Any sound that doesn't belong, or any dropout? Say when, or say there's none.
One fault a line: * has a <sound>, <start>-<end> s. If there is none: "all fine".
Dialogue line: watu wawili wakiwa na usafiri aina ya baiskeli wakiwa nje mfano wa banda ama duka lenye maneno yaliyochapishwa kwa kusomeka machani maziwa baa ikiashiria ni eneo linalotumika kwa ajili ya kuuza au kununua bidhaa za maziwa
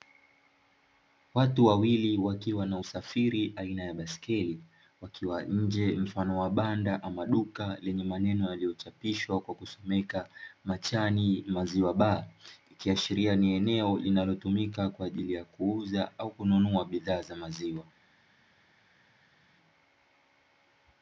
all fine